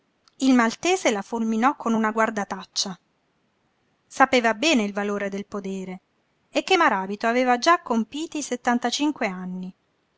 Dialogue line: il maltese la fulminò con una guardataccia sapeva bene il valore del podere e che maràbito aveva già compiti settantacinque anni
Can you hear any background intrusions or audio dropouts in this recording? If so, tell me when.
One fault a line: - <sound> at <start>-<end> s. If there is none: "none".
none